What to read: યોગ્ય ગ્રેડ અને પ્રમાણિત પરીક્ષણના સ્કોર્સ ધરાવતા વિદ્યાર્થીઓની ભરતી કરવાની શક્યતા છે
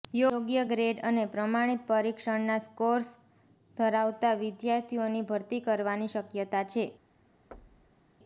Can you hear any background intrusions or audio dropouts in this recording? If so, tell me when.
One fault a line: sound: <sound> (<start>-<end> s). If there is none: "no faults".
sound: thud (7.5-8.1 s)